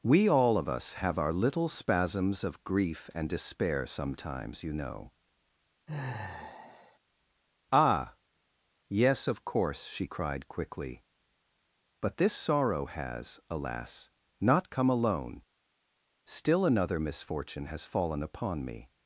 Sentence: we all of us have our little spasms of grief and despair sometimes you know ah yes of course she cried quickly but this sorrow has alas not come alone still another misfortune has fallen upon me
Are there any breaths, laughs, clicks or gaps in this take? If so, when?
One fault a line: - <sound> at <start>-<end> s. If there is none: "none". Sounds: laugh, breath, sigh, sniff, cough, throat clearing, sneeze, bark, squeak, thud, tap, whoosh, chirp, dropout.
- sigh at 5.9-7.0 s